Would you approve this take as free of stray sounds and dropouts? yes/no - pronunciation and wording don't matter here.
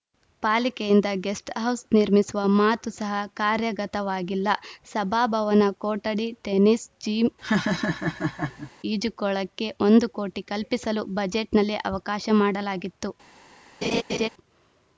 no